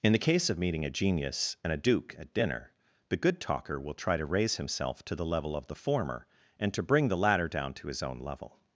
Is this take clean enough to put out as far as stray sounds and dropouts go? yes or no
yes